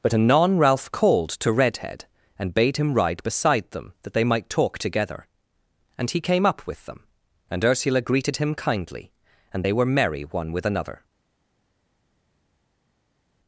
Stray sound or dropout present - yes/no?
no